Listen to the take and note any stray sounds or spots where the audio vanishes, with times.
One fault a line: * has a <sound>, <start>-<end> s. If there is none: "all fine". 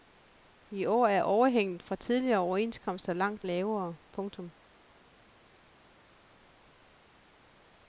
all fine